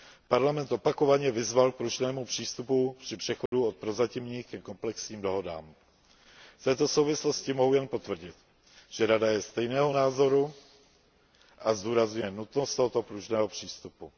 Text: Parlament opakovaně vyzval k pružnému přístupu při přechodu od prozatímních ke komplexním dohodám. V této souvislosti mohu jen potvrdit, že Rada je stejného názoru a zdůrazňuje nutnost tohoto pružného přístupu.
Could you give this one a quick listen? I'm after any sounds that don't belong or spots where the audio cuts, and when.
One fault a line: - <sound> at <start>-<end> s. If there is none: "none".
- dropout at 3.5-3.5 s